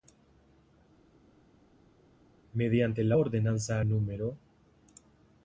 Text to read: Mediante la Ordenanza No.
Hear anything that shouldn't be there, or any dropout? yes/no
no